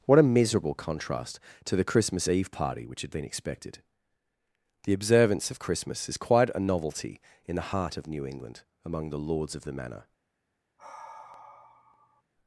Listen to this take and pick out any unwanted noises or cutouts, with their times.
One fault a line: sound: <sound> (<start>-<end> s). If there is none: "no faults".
sound: sigh (10.8-12.2 s)